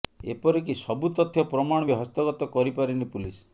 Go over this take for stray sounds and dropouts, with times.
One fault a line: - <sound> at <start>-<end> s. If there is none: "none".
none